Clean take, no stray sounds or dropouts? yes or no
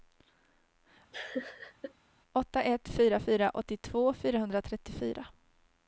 no